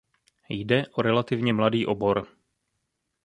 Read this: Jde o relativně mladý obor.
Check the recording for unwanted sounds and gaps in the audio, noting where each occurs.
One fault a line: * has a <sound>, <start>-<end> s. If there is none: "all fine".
all fine